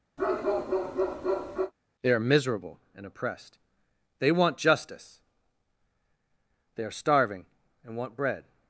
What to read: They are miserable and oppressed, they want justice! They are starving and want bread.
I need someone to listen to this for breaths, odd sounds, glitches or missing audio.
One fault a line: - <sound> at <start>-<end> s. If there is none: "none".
- bark at 0.2-1.7 s